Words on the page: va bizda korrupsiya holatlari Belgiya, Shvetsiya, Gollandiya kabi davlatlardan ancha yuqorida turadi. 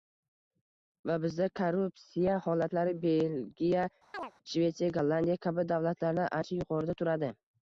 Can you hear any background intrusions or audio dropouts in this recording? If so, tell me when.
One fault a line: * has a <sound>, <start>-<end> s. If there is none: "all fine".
* has a chirp, 4.1-4.3 s